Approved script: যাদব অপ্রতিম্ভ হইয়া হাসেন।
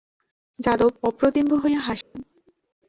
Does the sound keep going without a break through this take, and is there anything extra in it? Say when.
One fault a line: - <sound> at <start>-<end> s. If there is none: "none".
- dropout at 2.0-2.2 s